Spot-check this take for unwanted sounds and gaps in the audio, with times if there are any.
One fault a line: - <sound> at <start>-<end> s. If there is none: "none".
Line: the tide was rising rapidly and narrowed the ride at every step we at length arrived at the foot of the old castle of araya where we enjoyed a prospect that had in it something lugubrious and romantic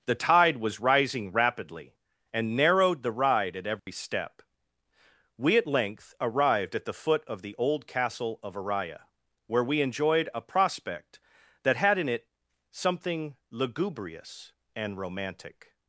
- dropout at 3.8-3.9 s